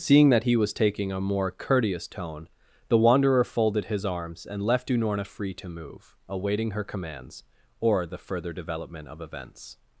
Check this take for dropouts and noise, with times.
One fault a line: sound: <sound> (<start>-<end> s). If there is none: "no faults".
no faults